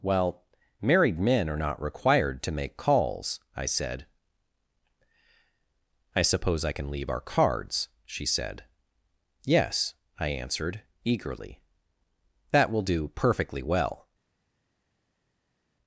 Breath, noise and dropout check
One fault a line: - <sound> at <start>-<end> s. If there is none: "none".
none